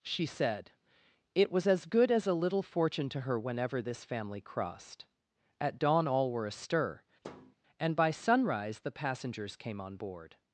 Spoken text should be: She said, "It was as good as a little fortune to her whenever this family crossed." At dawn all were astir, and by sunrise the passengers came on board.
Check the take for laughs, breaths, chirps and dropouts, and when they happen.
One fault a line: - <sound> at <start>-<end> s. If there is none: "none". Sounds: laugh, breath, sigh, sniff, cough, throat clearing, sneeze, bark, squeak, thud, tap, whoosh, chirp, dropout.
- thud at 7.2-7.6 s